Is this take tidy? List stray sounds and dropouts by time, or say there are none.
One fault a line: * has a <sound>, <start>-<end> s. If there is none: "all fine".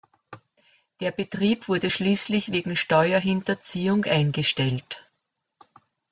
all fine